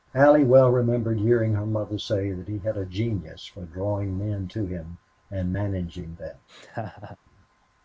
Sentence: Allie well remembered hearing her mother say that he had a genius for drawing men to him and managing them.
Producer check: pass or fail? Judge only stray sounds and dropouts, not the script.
fail